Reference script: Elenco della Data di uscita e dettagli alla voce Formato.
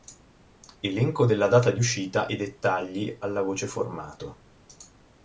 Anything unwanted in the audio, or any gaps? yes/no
no